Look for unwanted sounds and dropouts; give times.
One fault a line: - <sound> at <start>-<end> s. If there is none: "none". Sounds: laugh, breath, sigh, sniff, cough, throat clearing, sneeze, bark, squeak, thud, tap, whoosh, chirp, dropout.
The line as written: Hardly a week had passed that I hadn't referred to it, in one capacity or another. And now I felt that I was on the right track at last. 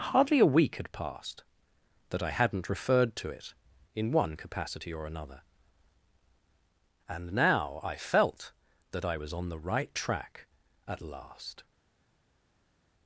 none